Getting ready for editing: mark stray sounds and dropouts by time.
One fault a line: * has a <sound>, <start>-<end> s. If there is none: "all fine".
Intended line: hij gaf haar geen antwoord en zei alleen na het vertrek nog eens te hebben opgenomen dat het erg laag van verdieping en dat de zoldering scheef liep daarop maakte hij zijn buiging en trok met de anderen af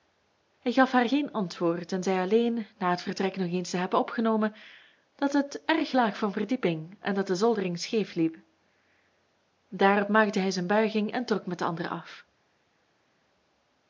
all fine